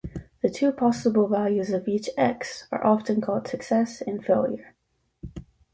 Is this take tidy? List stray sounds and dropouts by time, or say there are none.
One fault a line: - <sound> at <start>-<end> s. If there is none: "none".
none